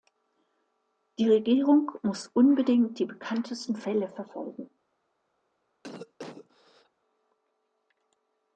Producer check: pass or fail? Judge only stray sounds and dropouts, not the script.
fail